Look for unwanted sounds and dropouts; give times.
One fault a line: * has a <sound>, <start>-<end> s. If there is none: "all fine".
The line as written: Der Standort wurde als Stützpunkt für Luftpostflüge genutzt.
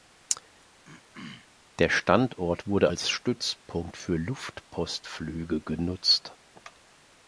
* has a throat clearing, 0.8-1.5 s